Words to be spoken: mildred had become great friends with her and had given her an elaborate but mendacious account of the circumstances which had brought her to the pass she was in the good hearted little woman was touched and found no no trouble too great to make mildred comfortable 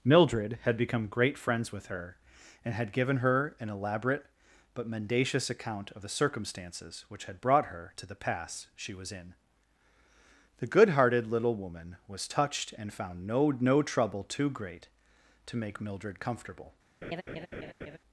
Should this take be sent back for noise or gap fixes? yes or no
yes